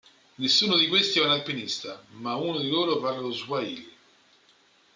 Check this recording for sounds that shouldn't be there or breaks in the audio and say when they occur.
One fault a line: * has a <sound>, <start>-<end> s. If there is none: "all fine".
all fine